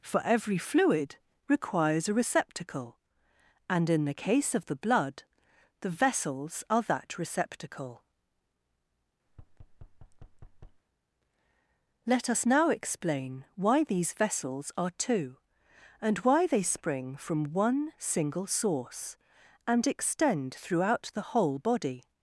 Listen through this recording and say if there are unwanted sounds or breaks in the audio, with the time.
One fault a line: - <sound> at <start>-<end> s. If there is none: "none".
- thud at 9.3-10.8 s